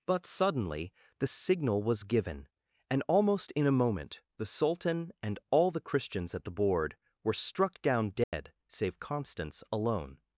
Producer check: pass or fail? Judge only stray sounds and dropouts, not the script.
fail